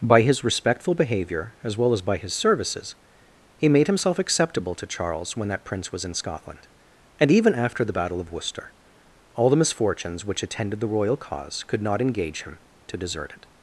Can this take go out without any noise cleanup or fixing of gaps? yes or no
yes